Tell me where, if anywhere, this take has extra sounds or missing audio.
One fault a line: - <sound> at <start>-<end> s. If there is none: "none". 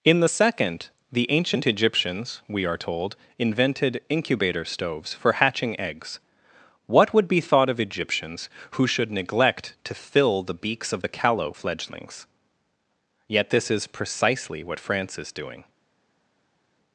none